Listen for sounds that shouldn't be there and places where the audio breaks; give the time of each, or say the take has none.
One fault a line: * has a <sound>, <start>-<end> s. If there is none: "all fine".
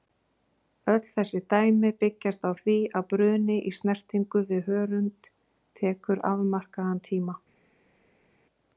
all fine